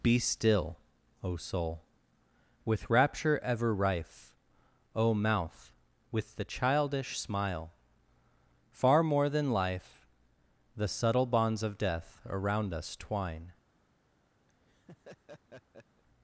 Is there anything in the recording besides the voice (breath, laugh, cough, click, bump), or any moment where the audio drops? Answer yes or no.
yes